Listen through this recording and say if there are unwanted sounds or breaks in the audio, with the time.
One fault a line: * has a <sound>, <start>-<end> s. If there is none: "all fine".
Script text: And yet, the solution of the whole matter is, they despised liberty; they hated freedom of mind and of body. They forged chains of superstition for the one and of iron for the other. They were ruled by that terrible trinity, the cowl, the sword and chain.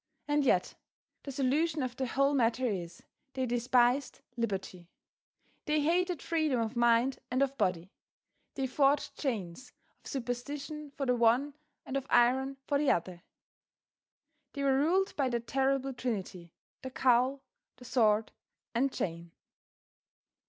all fine